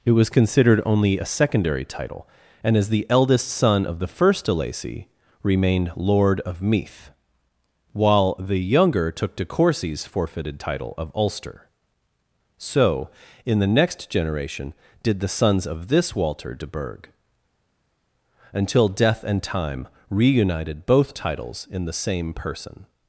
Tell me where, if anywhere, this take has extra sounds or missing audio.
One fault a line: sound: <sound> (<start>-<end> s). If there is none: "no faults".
no faults